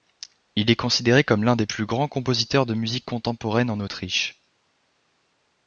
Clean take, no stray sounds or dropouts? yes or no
yes